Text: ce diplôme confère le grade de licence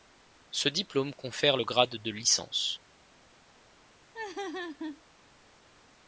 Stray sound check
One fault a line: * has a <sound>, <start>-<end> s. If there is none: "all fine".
* has a laugh, 4.1-5.0 s